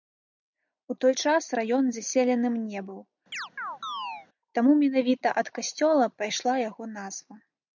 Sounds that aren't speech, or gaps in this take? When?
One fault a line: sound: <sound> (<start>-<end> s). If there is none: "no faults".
sound: chirp (3.3-4.3 s)